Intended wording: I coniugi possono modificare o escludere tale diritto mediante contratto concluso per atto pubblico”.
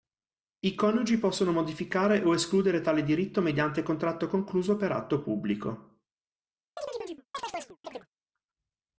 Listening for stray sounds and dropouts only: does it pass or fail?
fail